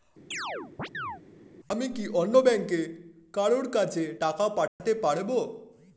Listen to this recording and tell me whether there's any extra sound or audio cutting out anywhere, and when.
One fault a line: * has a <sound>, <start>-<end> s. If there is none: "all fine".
* has a chirp, 0.3-1.2 s
* has a dropout, 4.7-4.8 s